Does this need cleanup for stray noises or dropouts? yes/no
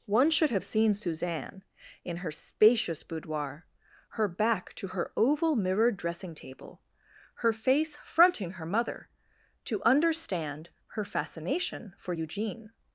no